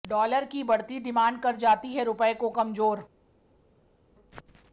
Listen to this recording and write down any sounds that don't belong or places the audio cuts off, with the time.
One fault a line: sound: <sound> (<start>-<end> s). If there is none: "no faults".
no faults